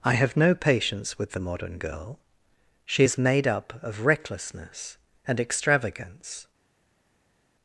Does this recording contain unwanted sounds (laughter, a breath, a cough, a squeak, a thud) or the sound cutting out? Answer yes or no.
no